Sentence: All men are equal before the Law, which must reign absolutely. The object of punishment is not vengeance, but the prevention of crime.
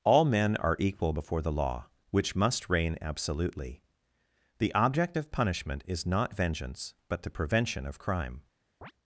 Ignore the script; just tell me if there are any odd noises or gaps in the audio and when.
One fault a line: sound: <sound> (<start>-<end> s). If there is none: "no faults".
sound: chirp (8.8-8.9 s)